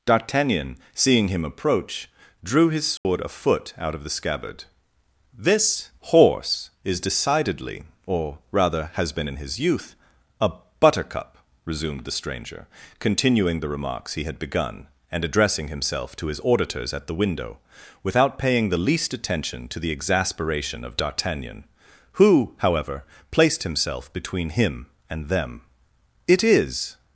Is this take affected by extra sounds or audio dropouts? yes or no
yes